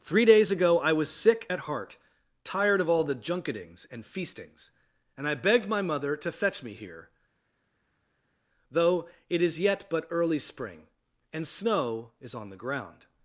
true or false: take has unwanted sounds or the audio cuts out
false